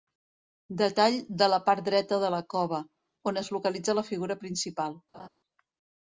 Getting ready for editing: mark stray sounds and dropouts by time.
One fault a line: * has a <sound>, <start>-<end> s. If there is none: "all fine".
* has a laugh, 5.1-5.3 s